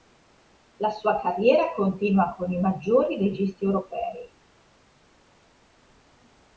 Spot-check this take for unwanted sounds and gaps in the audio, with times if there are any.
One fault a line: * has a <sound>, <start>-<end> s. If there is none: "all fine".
all fine